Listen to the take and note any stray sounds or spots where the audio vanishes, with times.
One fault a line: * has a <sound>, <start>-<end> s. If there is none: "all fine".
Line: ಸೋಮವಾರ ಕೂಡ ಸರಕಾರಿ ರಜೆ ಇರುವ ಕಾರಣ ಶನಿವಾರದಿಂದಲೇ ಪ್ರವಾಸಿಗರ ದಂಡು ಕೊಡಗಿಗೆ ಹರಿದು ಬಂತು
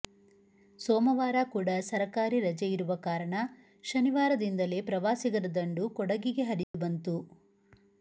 * has a dropout, 6.6-6.7 s